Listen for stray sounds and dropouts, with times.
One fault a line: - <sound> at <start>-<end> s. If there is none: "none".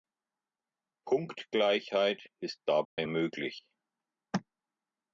- dropout at 2.8-3.0 s